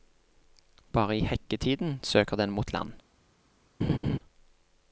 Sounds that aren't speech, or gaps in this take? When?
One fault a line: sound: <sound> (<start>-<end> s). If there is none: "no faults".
sound: laugh (3.8-4.2 s)